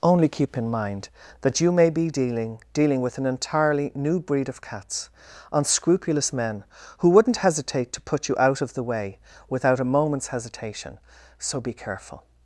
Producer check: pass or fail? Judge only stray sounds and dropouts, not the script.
pass